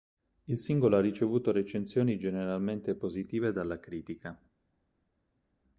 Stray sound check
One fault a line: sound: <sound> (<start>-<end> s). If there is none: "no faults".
no faults